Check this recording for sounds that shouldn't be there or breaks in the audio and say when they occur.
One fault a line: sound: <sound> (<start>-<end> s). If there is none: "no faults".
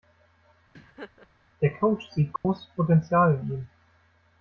sound: laugh (0.7-1.3 s)
sound: dropout (2.4-2.4 s)